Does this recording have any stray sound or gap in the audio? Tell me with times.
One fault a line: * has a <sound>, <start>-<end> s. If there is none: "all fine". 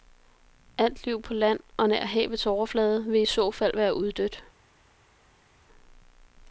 all fine